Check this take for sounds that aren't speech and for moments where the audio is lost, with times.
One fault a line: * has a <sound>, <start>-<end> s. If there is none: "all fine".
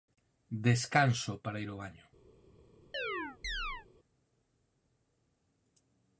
* has a chirp, 2.9-3.9 s